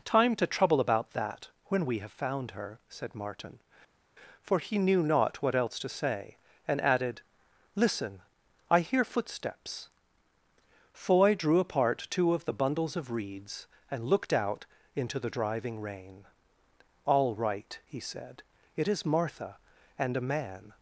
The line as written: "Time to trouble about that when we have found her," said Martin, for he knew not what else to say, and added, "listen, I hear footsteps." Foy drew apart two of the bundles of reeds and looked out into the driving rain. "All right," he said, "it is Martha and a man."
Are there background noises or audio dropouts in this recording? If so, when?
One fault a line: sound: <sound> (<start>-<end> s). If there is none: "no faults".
no faults